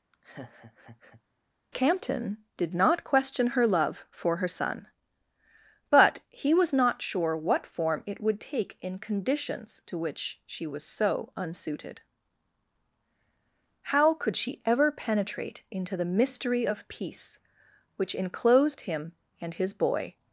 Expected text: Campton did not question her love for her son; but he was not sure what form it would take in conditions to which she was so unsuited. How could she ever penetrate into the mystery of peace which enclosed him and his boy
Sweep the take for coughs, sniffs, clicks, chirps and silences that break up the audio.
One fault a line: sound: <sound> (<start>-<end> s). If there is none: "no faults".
sound: laugh (0.1-1.2 s)